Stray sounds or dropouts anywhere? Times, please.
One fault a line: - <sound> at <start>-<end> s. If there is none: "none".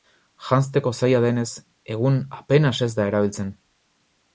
none